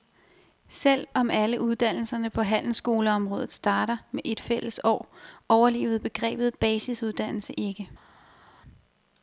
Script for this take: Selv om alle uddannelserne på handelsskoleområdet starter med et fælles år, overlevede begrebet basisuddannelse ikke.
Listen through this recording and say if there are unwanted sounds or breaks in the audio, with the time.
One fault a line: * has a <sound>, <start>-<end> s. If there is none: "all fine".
all fine